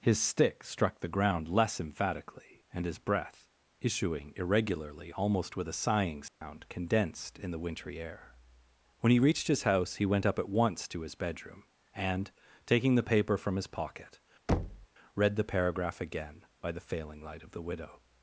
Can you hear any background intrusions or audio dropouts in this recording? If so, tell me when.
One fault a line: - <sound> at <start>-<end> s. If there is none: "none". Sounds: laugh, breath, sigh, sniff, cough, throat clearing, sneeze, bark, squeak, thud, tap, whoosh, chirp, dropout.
- dropout at 6.3-6.4 s
- thud at 14.5-14.9 s